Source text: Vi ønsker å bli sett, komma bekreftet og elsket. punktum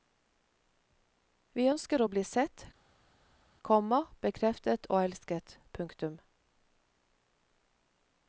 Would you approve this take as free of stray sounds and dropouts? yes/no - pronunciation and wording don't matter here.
yes